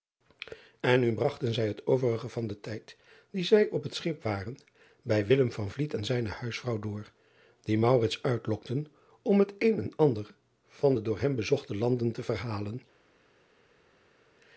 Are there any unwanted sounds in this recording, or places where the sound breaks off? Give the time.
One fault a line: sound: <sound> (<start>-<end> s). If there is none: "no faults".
no faults